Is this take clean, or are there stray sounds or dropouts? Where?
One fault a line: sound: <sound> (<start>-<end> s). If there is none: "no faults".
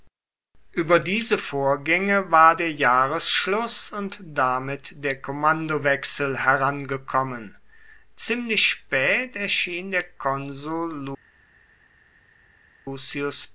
no faults